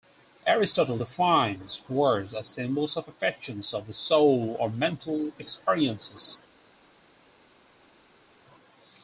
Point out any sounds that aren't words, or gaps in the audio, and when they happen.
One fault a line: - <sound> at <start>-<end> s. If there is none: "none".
none